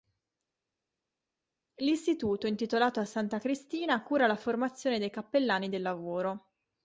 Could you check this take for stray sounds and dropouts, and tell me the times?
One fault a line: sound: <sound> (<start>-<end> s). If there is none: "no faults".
no faults